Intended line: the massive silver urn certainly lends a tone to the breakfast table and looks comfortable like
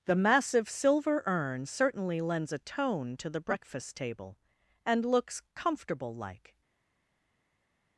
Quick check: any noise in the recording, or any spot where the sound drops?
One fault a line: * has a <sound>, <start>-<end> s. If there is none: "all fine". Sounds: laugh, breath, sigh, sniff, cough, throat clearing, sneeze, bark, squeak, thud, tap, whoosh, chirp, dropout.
all fine